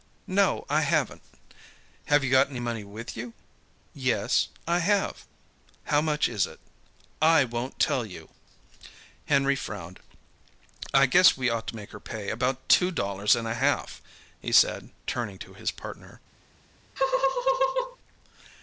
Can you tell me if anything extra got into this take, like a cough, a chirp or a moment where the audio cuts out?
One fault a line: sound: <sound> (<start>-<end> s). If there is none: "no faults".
sound: laugh (17.0-18.0 s)